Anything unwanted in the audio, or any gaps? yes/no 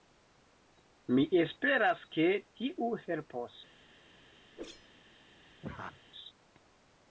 yes